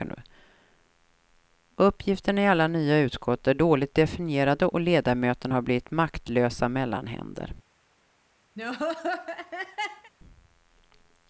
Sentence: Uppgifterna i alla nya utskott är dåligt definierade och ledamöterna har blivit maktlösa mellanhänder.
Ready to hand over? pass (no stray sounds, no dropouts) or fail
fail